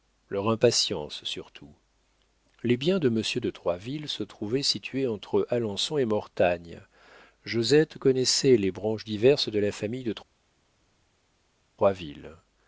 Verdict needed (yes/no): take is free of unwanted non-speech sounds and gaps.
yes